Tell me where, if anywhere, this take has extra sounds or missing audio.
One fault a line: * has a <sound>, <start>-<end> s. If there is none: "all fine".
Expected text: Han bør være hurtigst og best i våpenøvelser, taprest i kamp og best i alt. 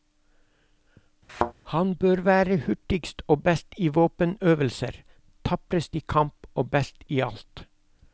* has a thud, 1.3-1.5 s